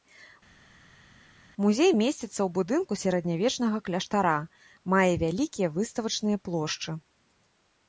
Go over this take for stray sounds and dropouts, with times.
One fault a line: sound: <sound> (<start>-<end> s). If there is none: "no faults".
no faults